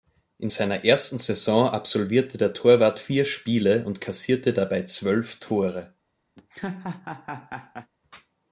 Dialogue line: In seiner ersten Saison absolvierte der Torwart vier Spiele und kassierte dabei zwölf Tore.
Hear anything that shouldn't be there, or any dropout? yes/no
yes